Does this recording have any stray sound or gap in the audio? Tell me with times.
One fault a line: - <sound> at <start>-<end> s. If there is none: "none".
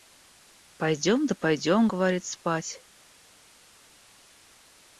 none